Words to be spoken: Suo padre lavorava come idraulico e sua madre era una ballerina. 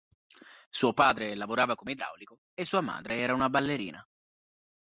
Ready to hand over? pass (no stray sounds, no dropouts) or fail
pass